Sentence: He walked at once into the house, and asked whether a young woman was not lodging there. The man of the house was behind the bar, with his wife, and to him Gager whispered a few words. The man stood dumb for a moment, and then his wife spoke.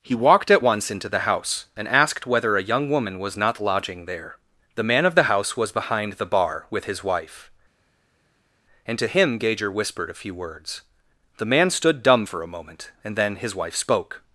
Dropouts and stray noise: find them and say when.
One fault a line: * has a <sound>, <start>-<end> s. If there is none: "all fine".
all fine